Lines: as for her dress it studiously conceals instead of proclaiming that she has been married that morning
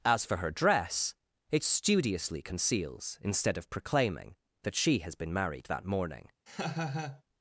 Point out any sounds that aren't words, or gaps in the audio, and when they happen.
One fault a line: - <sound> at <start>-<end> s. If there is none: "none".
- laugh at 6.5-7.2 s